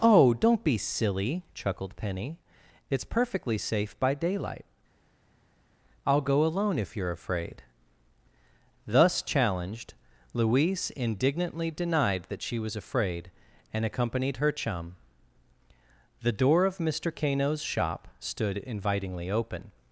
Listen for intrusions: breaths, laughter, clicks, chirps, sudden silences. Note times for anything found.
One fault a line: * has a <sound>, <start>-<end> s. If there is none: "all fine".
all fine